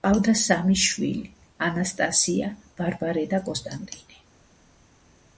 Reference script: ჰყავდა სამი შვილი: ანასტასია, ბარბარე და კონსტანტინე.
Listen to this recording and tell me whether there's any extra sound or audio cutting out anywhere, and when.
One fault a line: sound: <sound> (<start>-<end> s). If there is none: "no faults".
no faults